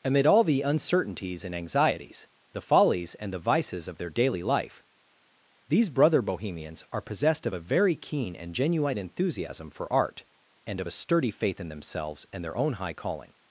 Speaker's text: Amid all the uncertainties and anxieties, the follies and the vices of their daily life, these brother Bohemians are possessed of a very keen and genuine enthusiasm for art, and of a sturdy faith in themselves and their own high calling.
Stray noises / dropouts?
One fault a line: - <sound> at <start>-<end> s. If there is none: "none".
none